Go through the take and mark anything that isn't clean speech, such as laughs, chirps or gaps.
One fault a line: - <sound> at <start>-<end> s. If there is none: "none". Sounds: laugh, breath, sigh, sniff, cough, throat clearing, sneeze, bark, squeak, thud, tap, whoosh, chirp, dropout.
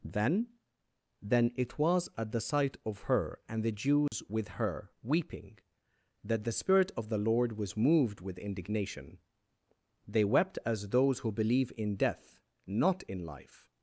- dropout at 4.1-4.1 s